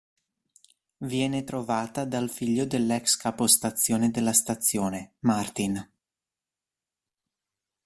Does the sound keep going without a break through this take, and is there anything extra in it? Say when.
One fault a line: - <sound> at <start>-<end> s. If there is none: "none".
none